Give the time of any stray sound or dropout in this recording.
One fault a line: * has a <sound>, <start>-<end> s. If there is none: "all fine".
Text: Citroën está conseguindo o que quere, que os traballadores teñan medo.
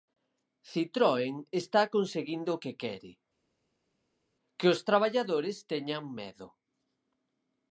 all fine